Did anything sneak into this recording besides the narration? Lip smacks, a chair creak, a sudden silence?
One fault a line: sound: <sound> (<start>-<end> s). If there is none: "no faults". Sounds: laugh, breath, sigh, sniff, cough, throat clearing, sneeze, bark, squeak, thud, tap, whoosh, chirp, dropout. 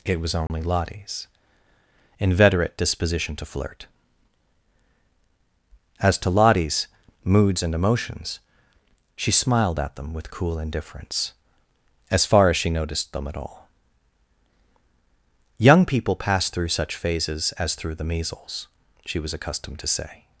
sound: dropout (0.5-0.5 s)